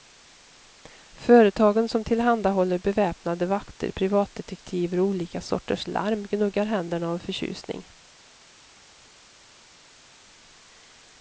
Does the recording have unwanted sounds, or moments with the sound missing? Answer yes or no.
no